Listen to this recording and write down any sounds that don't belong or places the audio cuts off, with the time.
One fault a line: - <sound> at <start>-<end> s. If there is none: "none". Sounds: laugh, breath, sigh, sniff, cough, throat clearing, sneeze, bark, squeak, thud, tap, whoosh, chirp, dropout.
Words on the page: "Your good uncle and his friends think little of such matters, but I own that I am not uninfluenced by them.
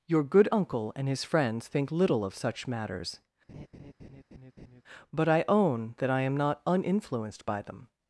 - laugh at 3.5-4.8 s